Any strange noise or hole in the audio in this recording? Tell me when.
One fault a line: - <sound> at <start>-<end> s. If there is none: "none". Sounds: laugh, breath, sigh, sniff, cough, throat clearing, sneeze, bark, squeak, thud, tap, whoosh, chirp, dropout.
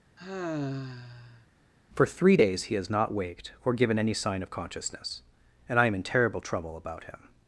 - sigh at 0.2-1.5 s